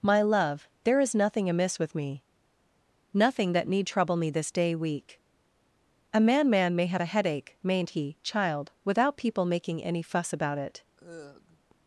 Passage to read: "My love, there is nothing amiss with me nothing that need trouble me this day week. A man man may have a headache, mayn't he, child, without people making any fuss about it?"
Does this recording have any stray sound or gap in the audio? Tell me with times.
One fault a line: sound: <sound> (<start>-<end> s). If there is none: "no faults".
sound: sigh (11.0-11.7 s)